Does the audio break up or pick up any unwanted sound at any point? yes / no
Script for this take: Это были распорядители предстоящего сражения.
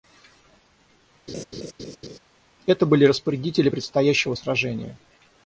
yes